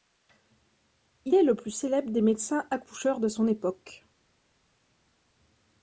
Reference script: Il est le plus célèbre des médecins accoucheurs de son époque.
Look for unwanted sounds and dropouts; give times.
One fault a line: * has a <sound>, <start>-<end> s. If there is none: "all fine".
all fine